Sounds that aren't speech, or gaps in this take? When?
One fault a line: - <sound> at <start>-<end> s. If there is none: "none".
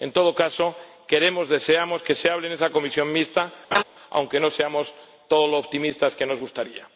- laugh at 3.7-3.8 s